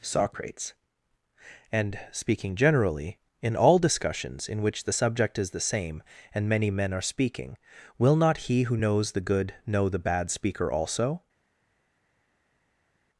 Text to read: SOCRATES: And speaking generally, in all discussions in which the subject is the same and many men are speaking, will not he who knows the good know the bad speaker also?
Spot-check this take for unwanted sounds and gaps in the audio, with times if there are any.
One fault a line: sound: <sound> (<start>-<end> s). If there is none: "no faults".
no faults